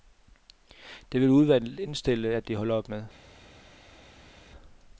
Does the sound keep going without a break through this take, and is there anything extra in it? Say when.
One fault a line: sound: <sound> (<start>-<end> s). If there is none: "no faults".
no faults